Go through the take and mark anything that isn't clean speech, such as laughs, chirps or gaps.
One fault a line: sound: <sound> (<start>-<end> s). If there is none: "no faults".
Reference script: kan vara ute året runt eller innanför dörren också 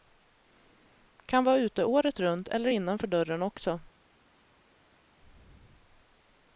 no faults